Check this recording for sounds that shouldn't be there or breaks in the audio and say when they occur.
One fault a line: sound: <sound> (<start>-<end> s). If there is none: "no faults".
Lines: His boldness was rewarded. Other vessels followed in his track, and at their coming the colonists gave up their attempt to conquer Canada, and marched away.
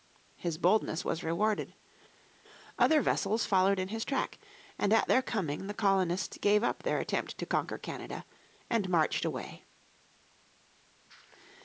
no faults